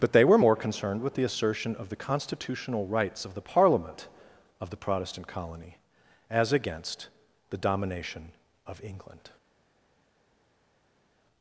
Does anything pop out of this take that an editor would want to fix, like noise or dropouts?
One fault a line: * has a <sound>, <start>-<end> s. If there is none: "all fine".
all fine